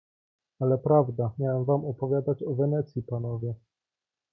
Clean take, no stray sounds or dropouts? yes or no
yes